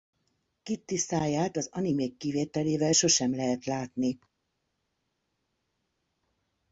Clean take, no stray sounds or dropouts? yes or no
yes